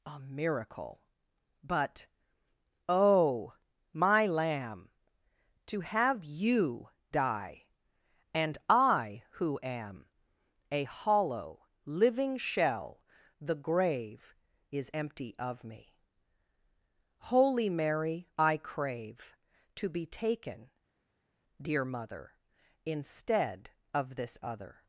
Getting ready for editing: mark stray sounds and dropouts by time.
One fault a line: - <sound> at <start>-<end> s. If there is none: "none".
none